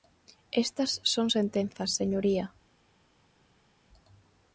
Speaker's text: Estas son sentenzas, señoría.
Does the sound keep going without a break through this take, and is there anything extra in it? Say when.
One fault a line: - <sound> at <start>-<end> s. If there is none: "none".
none